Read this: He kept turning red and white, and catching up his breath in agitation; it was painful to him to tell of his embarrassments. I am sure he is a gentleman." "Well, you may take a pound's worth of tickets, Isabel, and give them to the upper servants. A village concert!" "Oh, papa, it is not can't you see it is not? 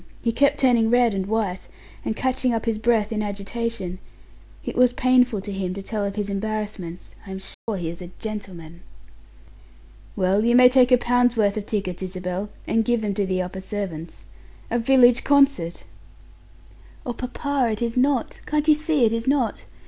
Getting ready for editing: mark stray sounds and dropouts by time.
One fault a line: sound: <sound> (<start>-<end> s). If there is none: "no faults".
sound: dropout (7.5-7.7 s)